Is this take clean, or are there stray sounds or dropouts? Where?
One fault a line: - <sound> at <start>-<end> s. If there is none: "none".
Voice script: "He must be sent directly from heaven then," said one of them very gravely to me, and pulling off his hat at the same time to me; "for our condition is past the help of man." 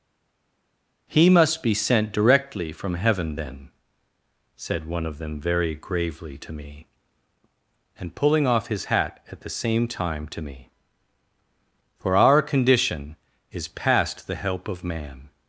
none